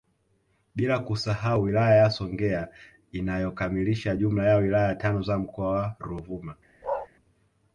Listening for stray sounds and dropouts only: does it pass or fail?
fail